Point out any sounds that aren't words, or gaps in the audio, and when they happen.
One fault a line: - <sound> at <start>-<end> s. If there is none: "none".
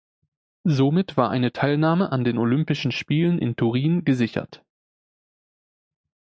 none